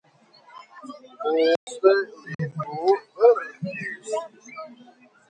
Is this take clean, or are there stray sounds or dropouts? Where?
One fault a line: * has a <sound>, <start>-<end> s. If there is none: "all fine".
* has a dropout, 1.6-1.7 s
* has a dropout, 2.3-2.4 s